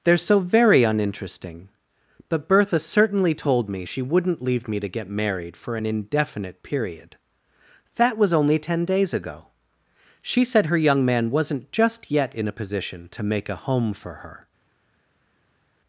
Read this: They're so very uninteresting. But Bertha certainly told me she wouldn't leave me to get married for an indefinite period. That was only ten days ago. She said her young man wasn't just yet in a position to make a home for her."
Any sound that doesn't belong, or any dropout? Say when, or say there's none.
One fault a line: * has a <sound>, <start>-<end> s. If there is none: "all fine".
all fine